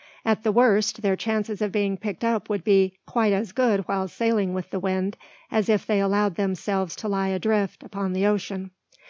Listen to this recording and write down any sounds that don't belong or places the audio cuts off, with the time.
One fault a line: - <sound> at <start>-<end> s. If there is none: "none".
none